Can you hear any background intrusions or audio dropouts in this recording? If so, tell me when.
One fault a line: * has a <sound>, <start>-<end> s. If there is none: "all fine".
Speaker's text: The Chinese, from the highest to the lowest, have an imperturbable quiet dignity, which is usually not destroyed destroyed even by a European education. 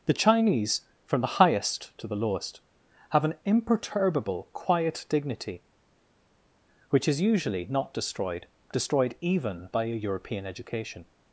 all fine